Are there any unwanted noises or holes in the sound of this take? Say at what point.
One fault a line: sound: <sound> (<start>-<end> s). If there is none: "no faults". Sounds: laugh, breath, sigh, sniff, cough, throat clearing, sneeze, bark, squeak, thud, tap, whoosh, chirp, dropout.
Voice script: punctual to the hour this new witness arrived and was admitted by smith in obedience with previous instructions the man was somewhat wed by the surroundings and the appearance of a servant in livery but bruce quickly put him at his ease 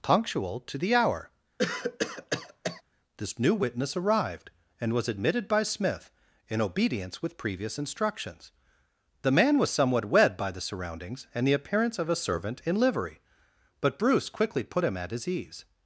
sound: cough (1.6-2.8 s)